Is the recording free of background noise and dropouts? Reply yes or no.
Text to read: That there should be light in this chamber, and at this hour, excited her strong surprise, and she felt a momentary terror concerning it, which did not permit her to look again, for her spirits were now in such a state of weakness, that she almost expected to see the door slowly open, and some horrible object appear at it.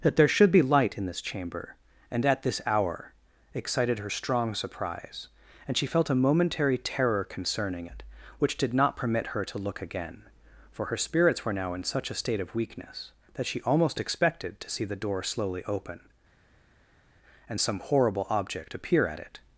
yes